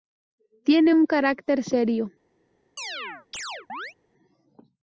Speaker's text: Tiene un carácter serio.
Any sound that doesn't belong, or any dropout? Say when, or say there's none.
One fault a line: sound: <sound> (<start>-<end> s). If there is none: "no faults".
sound: chirp (2.8-3.9 s)